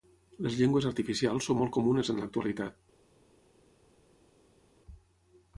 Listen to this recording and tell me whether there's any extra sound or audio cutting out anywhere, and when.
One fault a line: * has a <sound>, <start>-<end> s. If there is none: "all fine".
all fine